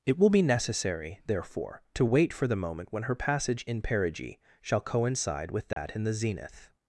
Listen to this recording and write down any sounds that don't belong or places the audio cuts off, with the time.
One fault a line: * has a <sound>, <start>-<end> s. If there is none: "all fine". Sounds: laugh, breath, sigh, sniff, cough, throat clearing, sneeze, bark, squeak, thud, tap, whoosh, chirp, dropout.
* has a dropout, 5.7-5.8 s